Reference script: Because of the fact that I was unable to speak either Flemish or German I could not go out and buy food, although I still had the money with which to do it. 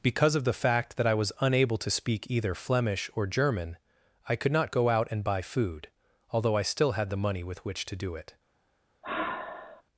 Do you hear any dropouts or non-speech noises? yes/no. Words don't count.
yes